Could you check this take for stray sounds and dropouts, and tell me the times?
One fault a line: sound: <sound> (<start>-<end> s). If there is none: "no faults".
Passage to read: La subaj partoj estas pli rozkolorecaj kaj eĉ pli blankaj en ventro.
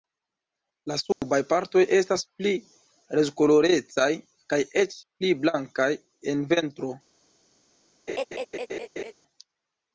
sound: dropout (1.1-1.2 s)
sound: laugh (8.1-9.1 s)